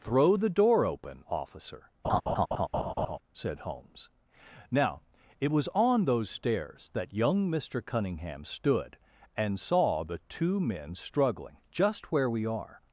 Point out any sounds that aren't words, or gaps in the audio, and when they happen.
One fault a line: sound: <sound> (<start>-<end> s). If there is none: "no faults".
sound: laugh (2.0-3.2 s)